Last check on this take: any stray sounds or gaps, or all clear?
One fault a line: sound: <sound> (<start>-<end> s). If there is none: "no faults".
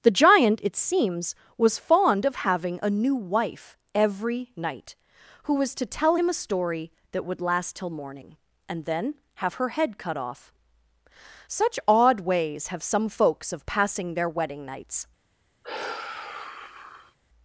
sound: sigh (15.6-17.2 s)